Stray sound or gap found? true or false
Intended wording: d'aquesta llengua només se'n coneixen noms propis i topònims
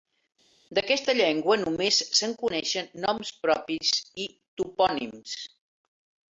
false